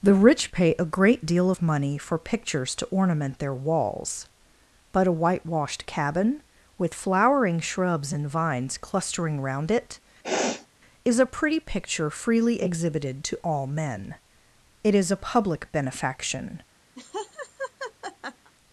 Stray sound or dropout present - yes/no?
yes